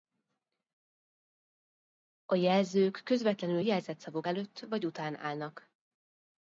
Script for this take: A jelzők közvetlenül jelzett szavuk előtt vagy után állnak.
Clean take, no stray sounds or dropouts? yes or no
yes